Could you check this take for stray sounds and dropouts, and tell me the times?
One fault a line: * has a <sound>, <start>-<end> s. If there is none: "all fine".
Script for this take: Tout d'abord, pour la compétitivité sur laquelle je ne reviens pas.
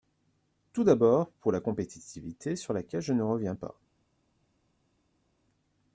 all fine